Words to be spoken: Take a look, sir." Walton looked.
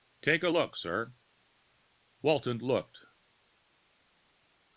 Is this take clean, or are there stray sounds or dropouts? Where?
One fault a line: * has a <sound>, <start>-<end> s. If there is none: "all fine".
all fine